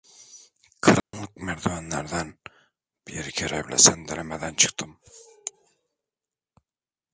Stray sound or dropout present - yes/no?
yes